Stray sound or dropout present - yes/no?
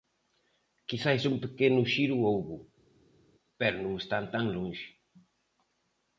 no